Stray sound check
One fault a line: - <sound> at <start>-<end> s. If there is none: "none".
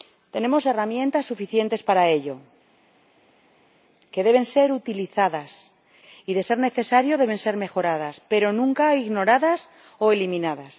none